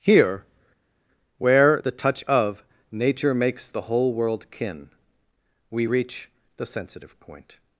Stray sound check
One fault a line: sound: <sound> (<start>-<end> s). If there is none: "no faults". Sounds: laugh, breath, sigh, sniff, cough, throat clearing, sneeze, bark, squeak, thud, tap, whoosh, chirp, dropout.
no faults